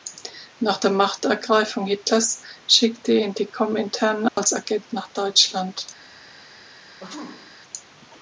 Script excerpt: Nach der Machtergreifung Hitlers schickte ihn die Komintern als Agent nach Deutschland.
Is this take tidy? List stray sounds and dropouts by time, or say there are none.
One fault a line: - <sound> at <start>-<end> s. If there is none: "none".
- dropout at 4.3-4.4 s
- sneeze at 7.0-7.6 s